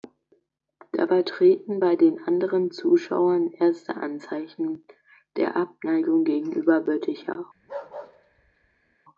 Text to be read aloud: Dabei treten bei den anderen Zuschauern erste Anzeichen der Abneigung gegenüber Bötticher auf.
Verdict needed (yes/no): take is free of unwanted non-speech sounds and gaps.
no